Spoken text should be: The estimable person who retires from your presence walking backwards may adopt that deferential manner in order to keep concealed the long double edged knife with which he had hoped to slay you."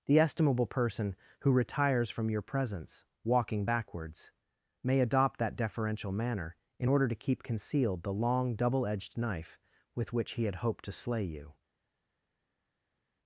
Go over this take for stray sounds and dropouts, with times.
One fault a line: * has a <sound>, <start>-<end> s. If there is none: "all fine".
all fine